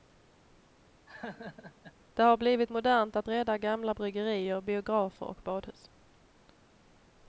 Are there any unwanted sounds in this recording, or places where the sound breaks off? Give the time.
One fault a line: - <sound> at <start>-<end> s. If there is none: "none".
- laugh at 1.1-1.9 s